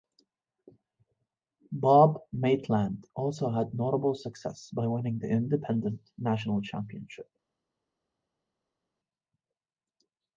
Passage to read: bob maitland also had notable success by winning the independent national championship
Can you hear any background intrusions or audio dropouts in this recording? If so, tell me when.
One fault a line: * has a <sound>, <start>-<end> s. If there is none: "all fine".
all fine